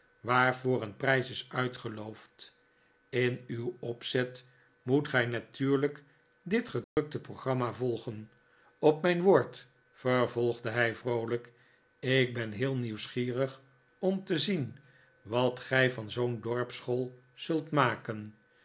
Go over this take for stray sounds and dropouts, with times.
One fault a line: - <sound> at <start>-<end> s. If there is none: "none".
- dropout at 6.8-7.0 s